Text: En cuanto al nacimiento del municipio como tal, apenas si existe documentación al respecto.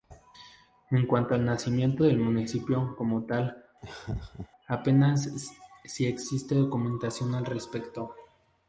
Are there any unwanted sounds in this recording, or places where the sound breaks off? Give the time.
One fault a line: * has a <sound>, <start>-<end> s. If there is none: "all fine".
* has a laugh, 3.8-4.5 s